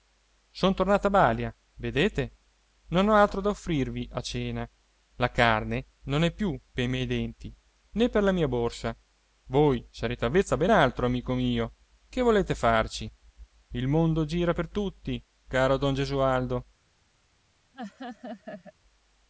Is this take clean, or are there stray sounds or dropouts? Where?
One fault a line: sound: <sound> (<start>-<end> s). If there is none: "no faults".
sound: laugh (17.7-18.7 s)